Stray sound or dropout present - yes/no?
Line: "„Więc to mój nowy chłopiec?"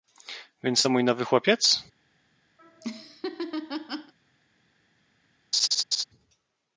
yes